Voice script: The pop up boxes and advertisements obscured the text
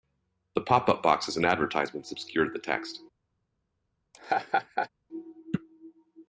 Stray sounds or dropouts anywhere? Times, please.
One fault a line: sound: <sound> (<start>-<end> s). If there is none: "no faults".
sound: laugh (4.1-4.9 s)